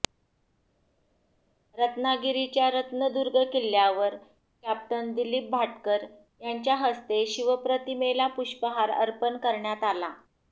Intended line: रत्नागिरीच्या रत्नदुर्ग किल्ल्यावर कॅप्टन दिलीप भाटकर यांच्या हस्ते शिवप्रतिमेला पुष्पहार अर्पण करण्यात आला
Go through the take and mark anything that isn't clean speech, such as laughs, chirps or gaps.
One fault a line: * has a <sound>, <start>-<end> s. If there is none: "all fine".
all fine